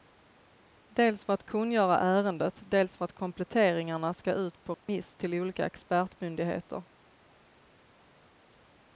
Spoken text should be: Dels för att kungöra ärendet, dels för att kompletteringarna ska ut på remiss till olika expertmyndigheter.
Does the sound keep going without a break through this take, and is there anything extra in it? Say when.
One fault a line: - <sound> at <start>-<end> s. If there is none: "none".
- dropout at 4.7-4.9 s